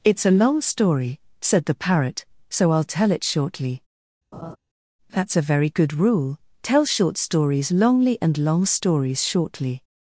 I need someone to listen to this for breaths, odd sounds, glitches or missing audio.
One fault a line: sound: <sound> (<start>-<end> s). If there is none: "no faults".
sound: laugh (4.3-4.6 s)